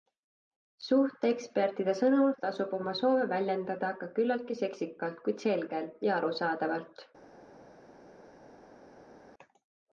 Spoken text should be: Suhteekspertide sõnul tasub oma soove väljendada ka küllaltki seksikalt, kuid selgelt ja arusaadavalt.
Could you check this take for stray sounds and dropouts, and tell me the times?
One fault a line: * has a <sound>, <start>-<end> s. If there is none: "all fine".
all fine